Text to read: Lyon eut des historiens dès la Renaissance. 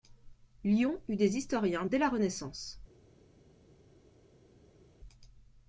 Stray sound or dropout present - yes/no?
no